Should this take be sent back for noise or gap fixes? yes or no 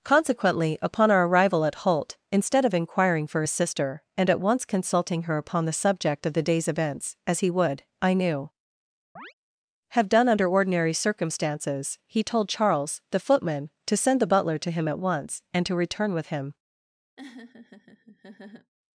yes